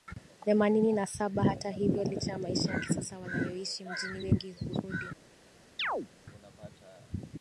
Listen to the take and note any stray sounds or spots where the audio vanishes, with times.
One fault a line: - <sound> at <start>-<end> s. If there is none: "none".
- chirp at 5.8-6.1 s